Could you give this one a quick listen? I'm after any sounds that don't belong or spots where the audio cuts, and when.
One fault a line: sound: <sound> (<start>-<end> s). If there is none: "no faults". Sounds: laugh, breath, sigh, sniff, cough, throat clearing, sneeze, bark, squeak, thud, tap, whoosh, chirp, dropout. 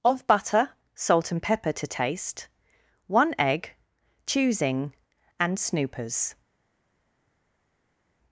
no faults